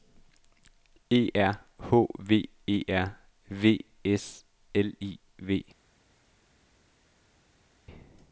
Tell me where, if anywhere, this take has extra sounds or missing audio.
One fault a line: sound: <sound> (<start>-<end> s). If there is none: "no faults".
no faults